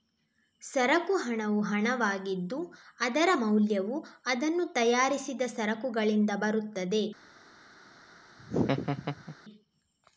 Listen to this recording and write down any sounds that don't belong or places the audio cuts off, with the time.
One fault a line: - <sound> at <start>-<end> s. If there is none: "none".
- laugh at 8.4-9.4 s